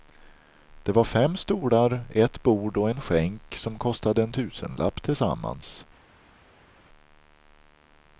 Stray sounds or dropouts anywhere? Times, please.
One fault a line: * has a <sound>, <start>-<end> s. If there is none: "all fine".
all fine